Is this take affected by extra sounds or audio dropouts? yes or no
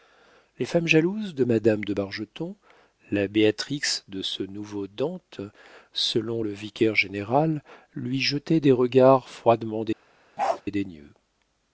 yes